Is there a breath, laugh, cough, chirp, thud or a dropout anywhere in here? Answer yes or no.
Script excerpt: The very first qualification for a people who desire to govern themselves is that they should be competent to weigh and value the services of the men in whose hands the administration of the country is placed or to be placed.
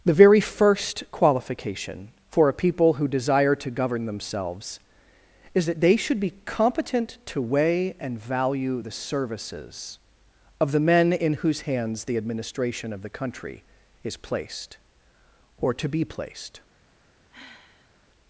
yes